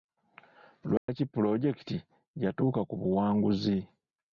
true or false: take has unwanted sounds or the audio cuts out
true